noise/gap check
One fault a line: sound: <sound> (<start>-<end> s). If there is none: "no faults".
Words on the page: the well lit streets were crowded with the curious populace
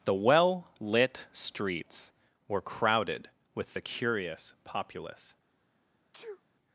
sound: sneeze (6.1-6.4 s)